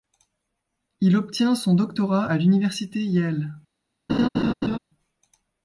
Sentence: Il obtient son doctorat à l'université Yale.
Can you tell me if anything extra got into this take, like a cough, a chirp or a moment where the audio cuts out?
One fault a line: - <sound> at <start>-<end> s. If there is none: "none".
- laugh at 4.1-4.8 s